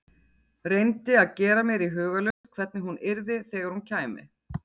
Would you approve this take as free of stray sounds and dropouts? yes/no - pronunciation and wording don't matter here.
no